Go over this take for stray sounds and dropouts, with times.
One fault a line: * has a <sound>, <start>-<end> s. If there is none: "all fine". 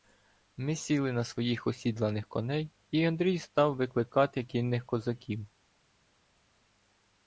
all fine